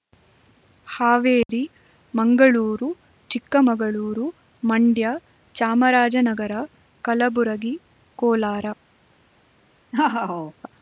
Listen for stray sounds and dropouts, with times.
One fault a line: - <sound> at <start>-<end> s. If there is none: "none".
- dropout at 1.4-1.5 s
- laugh at 9.9-10.5 s